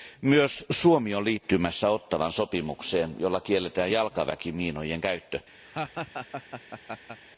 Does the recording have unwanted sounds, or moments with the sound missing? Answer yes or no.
yes